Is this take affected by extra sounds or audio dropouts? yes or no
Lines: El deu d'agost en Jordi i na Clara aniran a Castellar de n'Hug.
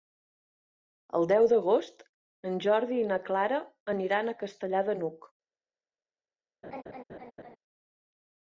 yes